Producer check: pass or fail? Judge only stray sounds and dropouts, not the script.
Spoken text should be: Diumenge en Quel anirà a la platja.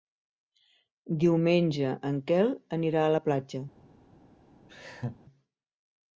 fail